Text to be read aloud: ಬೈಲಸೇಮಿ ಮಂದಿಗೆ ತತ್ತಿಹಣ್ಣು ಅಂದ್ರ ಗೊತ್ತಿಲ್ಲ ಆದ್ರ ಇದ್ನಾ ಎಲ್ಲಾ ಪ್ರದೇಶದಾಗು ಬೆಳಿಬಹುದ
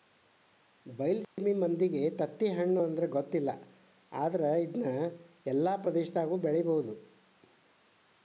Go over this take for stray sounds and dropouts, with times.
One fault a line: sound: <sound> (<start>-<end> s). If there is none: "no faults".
sound: dropout (1.2-1.4 s)